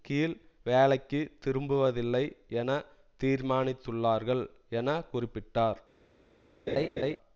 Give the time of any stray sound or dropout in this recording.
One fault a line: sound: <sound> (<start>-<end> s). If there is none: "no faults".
sound: laugh (6.7-7.2 s)